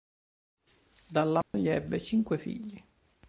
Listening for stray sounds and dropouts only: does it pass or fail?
fail